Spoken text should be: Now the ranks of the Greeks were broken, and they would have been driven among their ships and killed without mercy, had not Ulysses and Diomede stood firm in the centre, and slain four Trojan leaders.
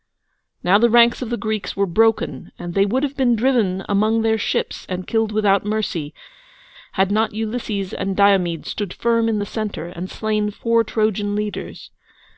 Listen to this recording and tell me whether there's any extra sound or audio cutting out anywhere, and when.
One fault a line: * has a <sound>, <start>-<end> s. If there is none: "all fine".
all fine